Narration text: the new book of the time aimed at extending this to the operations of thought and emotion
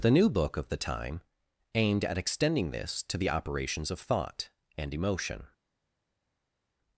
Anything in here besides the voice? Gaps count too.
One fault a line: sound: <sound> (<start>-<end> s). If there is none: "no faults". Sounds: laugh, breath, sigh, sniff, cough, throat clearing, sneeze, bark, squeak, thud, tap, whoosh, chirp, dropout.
no faults